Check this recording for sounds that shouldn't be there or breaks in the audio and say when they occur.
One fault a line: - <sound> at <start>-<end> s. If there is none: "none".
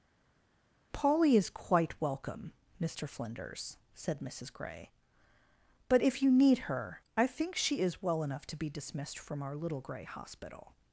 none